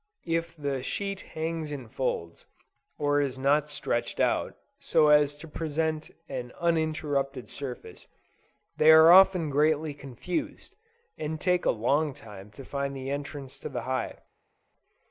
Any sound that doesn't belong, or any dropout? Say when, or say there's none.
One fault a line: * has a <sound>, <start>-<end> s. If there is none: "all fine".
all fine